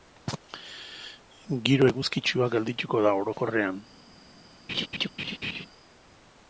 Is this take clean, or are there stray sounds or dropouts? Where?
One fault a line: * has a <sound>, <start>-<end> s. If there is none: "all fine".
* has a laugh, 4.7-5.7 s